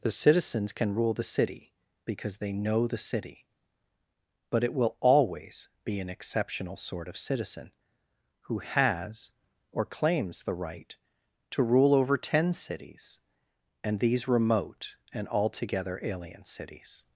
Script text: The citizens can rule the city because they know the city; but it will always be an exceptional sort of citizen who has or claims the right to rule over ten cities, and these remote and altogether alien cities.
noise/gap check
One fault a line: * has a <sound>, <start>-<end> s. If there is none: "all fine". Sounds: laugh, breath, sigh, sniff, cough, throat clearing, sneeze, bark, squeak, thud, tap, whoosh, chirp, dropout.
all fine